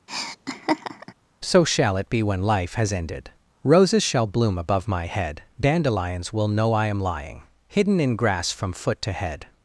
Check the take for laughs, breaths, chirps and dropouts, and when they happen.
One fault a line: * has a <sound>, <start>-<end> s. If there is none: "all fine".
* has a laugh, 0.1-1.1 s